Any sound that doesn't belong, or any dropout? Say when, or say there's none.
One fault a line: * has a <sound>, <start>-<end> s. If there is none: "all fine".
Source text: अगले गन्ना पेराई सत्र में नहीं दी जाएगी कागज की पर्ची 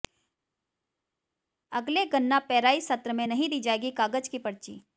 all fine